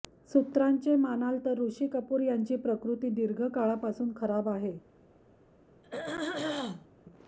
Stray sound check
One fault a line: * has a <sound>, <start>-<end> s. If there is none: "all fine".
* has a throat clearing, 5.8-6.9 s